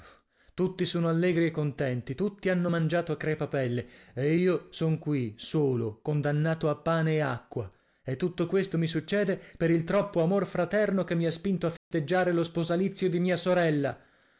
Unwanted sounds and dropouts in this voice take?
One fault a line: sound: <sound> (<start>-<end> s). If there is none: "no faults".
sound: dropout (11.8-11.9 s)